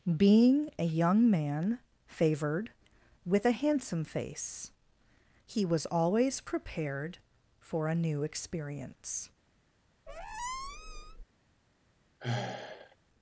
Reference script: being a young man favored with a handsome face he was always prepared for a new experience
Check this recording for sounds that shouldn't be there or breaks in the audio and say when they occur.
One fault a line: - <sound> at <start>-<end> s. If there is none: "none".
- squeak at 10.1-11.2 s
- sigh at 12.2-13.0 s